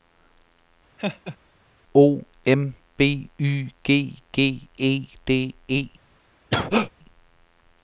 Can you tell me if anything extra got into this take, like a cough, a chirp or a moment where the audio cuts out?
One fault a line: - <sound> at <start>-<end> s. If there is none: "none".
- laugh at 1.0-1.4 s
- cough at 6.5-6.9 s